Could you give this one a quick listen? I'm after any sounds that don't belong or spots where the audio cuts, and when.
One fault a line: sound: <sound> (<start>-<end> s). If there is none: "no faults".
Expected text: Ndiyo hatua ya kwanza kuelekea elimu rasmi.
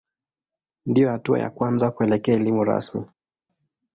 no faults